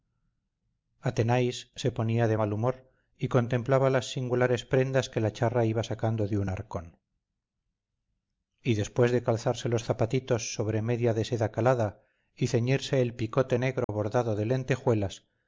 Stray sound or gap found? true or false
true